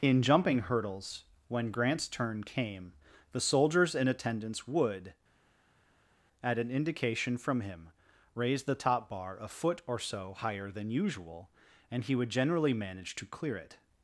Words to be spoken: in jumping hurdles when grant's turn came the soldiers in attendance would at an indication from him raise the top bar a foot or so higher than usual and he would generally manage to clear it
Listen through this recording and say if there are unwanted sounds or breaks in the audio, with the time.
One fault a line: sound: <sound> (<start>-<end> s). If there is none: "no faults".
no faults